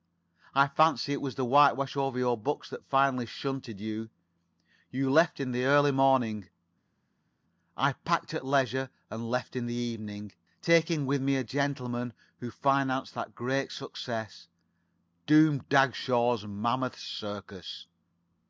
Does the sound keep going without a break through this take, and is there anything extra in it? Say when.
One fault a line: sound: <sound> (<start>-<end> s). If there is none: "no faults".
no faults